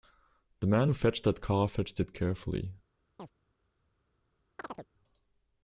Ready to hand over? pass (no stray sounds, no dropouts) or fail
fail